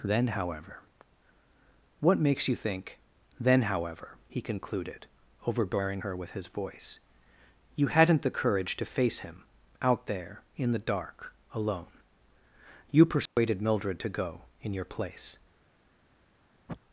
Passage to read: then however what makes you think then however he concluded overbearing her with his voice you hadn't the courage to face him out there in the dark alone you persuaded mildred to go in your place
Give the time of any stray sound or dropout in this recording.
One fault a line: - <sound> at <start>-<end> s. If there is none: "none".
- dropout at 13.3-13.4 s
- sniff at 16.7-16.8 s